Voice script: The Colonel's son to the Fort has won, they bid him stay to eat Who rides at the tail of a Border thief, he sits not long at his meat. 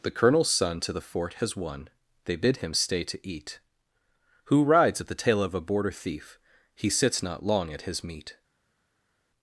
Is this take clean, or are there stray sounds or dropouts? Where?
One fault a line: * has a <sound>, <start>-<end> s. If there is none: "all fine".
all fine